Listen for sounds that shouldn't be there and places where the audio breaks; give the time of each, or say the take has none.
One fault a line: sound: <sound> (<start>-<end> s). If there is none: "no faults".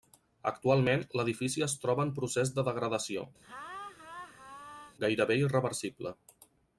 sound: laugh (3.4-5.0 s)